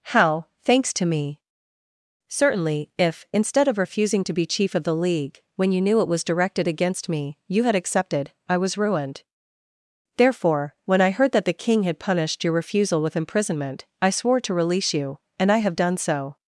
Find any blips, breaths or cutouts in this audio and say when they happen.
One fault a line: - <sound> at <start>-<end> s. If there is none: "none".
none